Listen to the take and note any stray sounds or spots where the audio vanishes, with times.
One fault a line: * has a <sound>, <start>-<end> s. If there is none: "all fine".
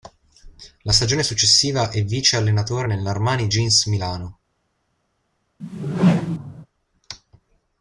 * has a whoosh, 5.6-6.7 s